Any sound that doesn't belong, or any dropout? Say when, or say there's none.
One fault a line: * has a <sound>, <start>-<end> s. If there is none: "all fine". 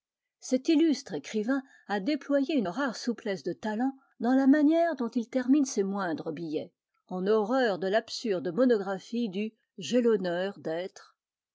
all fine